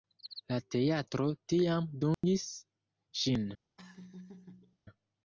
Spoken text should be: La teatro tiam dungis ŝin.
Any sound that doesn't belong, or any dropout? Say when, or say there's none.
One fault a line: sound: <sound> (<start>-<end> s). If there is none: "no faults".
sound: dropout (2.1-2.2 s)
sound: laugh (3.8-4.8 s)